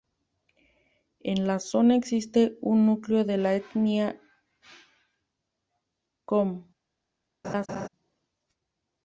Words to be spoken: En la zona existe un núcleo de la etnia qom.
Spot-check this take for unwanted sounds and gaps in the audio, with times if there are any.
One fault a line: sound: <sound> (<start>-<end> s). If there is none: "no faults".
sound: laugh (7.4-7.9 s)